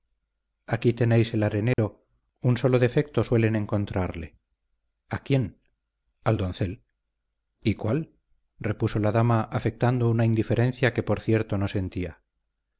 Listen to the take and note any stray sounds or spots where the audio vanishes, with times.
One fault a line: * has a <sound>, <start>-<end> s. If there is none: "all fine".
* has a dropout, 1.7-1.8 s